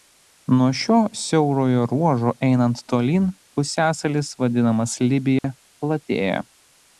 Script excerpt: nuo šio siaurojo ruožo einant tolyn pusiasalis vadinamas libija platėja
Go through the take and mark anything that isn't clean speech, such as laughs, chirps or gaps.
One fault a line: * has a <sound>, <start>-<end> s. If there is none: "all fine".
* has a dropout, 5.4-5.4 s